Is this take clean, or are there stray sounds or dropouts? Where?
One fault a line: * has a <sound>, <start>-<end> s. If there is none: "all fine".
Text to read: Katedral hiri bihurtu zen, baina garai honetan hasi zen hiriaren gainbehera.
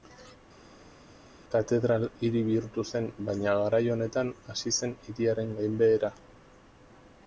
all fine